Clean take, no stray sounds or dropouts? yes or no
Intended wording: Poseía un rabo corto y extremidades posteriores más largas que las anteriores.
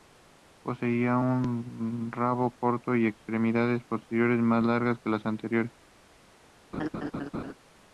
no